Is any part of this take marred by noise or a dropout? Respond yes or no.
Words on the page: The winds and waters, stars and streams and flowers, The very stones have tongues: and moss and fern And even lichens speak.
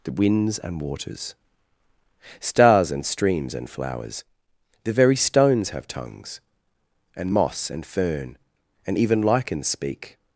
no